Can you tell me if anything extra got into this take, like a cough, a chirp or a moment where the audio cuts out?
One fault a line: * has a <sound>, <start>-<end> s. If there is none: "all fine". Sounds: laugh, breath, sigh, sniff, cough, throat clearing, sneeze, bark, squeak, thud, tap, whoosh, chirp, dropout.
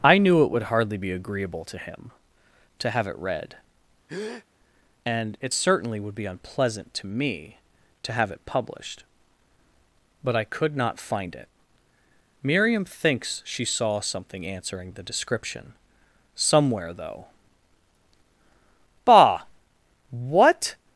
* has a breath, 4.1-4.5 s